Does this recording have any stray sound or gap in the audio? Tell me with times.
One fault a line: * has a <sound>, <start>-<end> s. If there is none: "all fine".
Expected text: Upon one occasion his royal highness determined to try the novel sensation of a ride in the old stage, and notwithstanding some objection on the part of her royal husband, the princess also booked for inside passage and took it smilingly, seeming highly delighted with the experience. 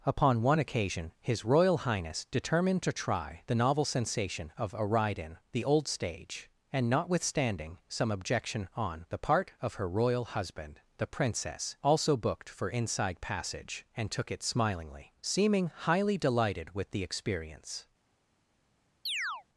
* has a chirp, 19.1-19.4 s